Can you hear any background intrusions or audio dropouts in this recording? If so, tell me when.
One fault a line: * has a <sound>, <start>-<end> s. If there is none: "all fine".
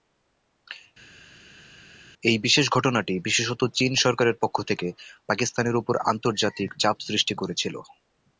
all fine